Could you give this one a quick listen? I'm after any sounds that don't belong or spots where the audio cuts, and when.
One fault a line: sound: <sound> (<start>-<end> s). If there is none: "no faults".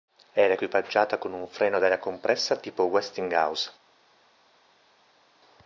no faults